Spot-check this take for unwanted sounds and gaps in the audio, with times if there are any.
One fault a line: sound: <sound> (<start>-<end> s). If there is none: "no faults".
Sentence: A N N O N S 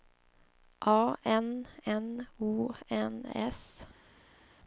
no faults